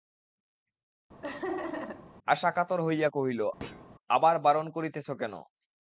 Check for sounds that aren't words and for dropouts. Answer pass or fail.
fail